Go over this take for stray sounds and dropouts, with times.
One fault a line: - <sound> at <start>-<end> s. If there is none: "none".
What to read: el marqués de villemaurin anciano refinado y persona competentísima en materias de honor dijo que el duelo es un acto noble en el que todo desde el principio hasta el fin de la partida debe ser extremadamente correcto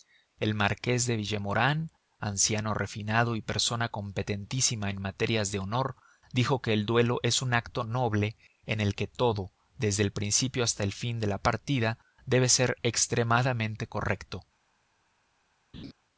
- laugh at 15.7-15.9 s